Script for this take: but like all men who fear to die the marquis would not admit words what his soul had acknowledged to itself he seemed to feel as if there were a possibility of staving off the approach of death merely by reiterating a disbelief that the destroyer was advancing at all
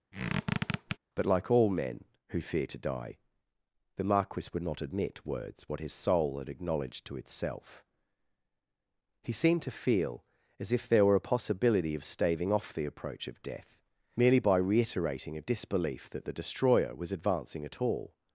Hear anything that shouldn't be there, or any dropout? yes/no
yes